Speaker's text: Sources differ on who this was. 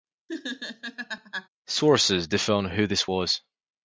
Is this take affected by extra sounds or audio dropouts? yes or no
yes